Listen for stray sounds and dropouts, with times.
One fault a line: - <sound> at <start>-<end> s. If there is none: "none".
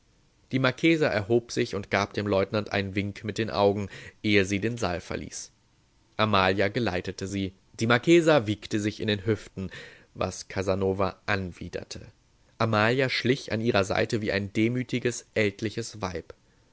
none